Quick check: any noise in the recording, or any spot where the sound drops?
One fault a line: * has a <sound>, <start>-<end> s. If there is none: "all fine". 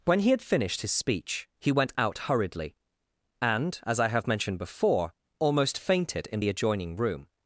all fine